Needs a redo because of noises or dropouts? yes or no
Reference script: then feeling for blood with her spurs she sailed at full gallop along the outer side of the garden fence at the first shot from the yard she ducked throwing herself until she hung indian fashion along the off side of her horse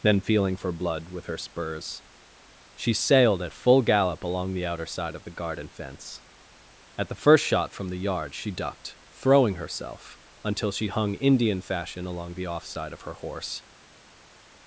no